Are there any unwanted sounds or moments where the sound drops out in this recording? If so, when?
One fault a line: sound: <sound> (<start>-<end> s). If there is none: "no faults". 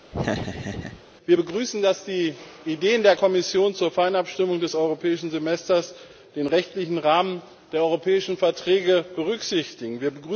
sound: laugh (0.1-1.0 s)